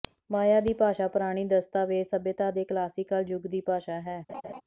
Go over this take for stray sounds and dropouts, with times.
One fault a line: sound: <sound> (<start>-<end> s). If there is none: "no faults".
sound: laugh (4.3-4.6 s)